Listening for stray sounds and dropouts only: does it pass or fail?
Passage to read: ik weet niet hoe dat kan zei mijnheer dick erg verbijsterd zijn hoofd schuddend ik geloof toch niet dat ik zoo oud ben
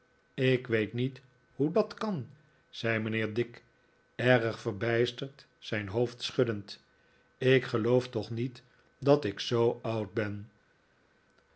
pass